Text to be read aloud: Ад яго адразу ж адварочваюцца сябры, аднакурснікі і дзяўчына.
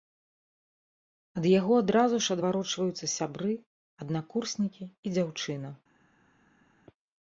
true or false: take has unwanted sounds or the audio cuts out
false